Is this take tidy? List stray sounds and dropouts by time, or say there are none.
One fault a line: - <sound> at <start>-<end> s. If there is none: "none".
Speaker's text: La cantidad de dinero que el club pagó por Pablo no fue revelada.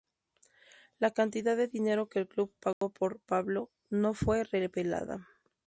- dropout at 2.7-2.8 s